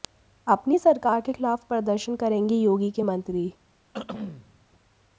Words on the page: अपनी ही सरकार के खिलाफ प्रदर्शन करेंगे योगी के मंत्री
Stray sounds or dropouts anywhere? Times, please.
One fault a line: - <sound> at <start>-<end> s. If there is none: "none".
- throat clearing at 3.9-4.7 s